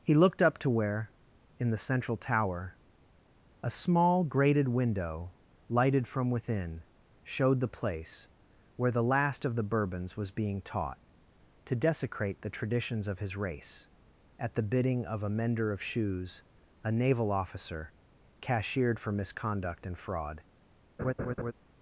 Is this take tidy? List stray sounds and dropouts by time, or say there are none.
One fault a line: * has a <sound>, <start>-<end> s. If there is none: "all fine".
* has a laugh, 21.0-21.5 s